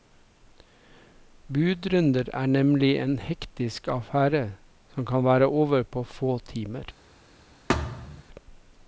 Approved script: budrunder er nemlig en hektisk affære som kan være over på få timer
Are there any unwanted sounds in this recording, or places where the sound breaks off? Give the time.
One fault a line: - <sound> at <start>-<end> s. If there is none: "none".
- thud at 7.7-8.2 s